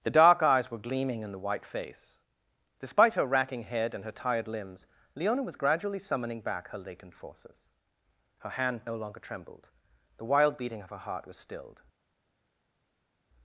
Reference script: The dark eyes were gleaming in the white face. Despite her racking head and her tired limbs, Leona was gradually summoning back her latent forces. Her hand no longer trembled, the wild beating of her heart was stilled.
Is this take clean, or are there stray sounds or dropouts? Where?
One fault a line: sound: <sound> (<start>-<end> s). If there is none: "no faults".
no faults